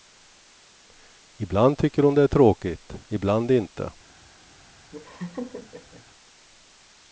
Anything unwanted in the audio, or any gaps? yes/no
yes